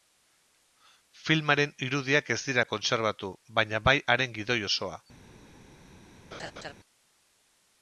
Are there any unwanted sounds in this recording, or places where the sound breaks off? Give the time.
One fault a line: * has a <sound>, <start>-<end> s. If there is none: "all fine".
* has a laugh, 6.3-6.7 s